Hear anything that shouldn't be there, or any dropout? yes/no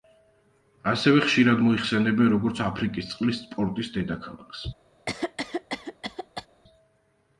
yes